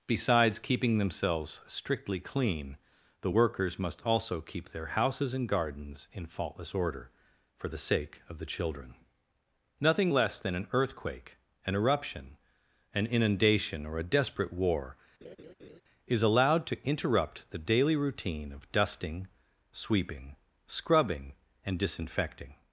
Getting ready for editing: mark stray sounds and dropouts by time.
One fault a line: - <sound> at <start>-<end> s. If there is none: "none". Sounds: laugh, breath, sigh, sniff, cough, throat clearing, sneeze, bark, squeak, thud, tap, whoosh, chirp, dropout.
- laugh at 15.2-15.8 s